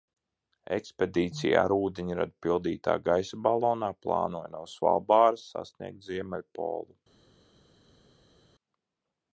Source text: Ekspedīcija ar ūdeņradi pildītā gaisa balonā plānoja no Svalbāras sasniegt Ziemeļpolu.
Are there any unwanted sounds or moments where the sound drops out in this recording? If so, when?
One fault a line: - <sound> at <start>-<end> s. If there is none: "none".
none